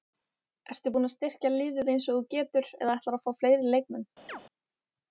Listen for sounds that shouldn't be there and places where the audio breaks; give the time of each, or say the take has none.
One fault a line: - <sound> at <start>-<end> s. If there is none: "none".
- chirp at 4.3-4.4 s